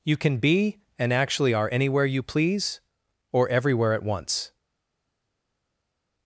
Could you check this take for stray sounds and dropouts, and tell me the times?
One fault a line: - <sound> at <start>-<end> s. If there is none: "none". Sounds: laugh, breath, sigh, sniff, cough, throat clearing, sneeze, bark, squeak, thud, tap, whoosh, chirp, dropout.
none